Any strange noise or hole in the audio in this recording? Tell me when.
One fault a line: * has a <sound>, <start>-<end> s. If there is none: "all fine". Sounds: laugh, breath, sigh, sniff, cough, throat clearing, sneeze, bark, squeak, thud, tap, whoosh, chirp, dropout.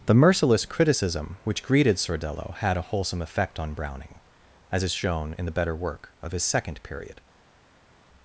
all fine